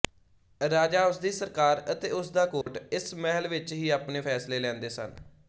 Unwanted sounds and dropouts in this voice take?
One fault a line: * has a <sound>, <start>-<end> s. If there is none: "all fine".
* has a dropout, 2.6-2.7 s